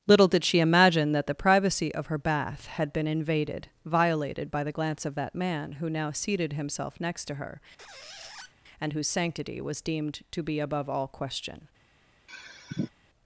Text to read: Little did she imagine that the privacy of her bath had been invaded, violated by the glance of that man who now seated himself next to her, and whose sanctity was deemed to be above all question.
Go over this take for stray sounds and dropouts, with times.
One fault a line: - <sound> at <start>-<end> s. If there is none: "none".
- squeak at 7.8-8.5 s
- sigh at 12.3-12.9 s